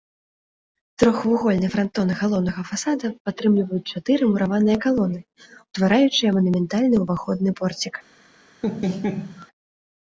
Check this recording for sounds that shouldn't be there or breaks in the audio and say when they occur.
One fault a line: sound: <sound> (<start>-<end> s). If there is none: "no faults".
sound: laugh (8.6-9.5 s)